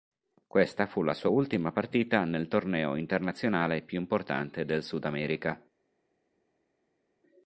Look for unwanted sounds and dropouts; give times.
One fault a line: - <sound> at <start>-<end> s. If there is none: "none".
none